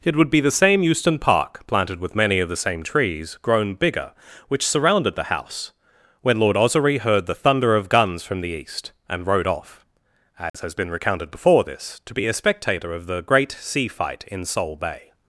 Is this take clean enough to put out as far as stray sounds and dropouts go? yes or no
no